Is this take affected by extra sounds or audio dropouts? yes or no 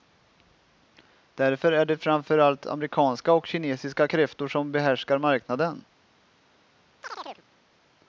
yes